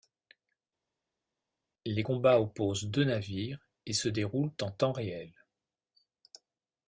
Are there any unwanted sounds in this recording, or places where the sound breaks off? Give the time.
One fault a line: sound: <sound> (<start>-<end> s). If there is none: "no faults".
no faults